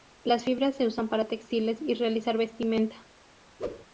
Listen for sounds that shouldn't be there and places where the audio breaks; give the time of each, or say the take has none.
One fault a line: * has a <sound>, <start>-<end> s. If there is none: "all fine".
* has a whoosh, 3.6-3.9 s